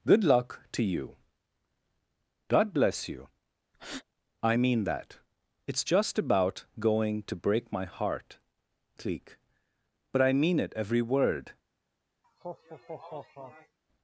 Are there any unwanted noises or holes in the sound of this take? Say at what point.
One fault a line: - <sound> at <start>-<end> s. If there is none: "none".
- breath at 3.7-4.0 s
- laugh at 12.2-13.8 s